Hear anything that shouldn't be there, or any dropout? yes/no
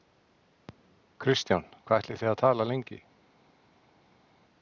no